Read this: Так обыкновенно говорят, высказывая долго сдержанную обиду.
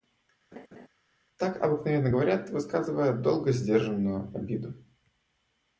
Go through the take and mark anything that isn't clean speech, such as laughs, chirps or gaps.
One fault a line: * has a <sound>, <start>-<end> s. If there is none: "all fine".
* has a laugh, 0.5-0.9 s